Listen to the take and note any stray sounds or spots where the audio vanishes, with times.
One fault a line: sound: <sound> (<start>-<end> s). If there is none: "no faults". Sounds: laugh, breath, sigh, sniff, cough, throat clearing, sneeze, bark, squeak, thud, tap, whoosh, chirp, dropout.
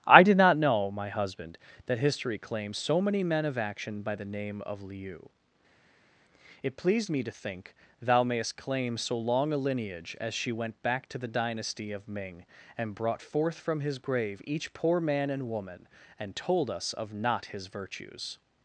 no faults